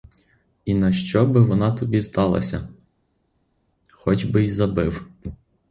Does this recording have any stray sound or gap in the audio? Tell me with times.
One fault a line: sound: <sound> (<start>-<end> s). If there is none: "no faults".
no faults